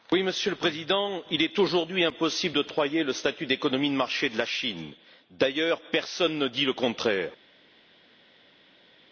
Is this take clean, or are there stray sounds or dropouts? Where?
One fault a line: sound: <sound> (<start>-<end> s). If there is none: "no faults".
no faults